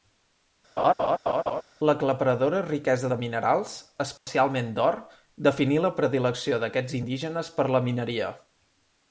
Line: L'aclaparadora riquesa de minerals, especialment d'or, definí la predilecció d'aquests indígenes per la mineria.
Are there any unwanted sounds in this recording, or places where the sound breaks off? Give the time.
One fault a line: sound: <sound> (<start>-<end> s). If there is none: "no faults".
sound: laugh (0.8-1.6 s)
sound: dropout (4.2-4.3 s)